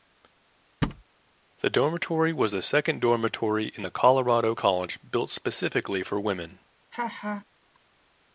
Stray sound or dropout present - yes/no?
yes